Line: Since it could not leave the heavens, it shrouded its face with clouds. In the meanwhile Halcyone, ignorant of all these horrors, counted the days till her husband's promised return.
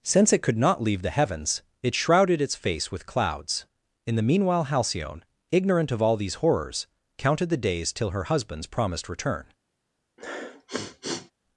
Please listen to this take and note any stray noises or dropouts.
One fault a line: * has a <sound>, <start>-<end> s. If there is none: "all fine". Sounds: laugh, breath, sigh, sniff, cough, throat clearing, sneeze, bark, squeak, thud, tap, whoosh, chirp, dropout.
* has a sniff, 10.2-11.3 s